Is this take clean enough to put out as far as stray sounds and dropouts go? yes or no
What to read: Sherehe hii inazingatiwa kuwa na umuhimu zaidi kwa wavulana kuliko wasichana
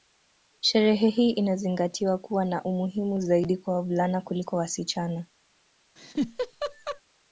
no